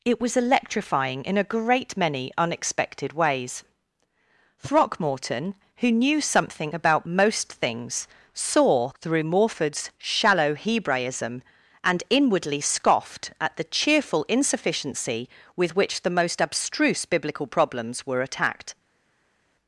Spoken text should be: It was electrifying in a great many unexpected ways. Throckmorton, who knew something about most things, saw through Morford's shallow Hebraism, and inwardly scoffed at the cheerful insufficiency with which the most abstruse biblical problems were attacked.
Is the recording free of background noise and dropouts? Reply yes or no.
yes